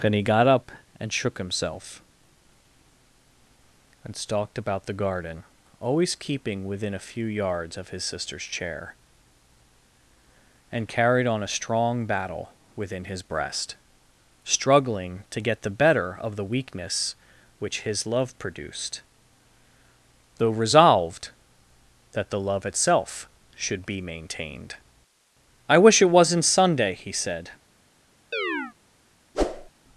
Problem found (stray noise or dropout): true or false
true